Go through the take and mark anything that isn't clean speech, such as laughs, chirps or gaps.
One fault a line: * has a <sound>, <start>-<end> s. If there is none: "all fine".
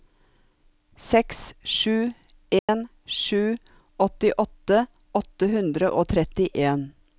* has a dropout, 2.6-2.7 s